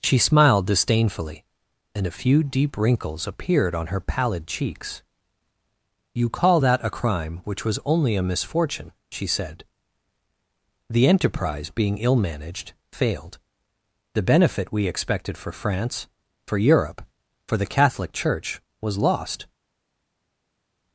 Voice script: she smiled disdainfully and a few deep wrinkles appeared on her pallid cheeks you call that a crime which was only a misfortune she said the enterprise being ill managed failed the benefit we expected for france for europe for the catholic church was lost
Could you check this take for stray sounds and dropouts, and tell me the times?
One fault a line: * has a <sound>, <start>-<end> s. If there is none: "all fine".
all fine